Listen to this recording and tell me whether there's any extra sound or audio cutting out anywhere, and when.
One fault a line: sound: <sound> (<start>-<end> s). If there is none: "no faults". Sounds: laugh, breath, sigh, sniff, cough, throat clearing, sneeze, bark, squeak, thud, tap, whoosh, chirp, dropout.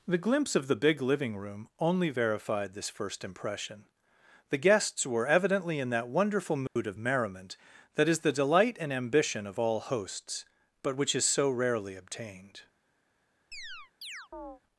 sound: dropout (6.7-6.8 s)
sound: chirp (13.5-14.6 s)